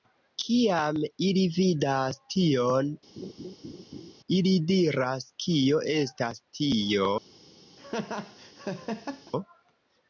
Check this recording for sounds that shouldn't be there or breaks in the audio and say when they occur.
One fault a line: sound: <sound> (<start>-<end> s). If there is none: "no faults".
sound: laugh (3.2-4.1 s)
sound: laugh (7.8-9.3 s)